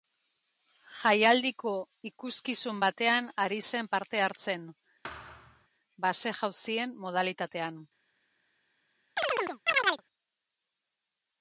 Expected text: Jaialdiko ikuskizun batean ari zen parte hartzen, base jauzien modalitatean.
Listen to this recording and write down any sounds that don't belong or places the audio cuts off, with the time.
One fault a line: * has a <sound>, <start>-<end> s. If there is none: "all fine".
* has a thud, 5.0-5.7 s
* has a chirp, 9.2-10.0 s